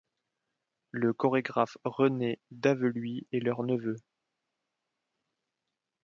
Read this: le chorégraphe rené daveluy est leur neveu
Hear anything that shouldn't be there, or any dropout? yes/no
no